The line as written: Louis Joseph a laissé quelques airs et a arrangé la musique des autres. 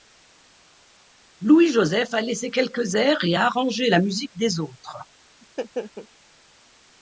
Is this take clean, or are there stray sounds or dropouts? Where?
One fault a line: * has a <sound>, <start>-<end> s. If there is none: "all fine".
* has a laugh, 5.4-6.1 s